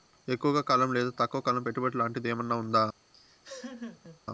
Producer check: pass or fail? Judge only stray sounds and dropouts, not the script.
fail